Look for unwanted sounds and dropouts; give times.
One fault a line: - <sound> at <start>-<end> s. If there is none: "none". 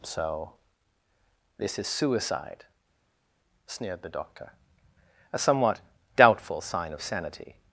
none